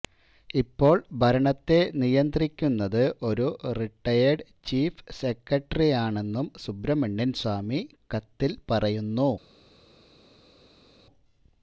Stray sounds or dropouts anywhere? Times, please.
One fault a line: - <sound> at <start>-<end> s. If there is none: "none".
none